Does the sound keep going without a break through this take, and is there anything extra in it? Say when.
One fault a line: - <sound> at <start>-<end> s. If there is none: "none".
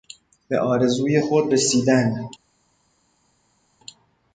none